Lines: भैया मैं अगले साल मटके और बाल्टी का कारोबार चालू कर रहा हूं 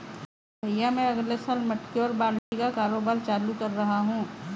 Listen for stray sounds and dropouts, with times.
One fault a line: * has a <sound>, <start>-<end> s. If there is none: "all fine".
* has a dropout, 2.4-2.5 s